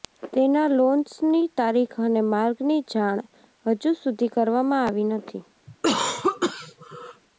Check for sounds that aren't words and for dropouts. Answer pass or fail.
fail